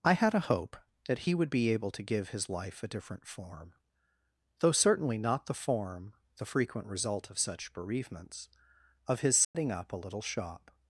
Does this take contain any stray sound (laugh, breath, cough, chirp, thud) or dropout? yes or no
yes